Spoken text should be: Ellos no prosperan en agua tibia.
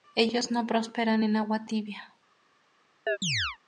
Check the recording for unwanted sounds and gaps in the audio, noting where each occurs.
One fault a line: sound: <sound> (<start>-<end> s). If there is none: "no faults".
sound: chirp (3.1-3.6 s)